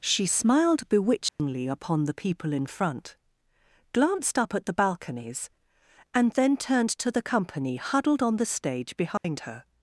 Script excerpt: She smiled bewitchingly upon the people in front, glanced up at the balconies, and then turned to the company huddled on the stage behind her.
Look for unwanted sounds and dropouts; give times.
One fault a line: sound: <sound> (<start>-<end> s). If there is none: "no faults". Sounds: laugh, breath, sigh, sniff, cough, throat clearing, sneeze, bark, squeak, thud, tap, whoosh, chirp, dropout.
sound: dropout (1.3-1.4 s)
sound: dropout (9.2-9.2 s)